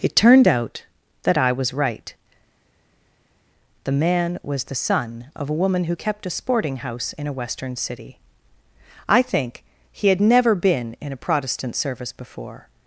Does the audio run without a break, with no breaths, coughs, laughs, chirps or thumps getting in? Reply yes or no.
yes